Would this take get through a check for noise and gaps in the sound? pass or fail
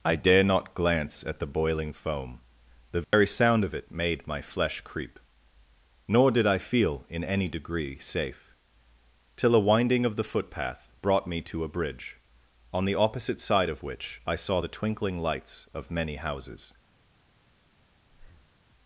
fail